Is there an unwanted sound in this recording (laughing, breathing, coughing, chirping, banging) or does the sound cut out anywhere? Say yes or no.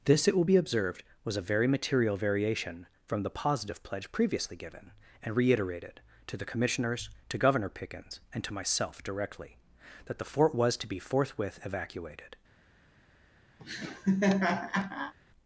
yes